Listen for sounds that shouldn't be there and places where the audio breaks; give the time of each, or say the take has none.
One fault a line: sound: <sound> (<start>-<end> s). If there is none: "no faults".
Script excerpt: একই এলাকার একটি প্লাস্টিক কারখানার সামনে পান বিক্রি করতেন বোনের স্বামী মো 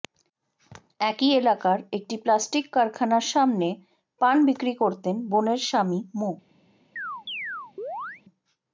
sound: chirp (7.0-8.2 s)